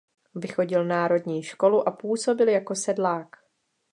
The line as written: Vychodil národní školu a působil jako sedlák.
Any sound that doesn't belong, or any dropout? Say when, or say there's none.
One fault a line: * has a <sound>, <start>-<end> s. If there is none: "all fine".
all fine